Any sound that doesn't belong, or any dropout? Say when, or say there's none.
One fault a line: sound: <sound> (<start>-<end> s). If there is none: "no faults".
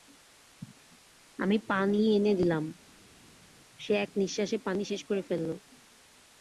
no faults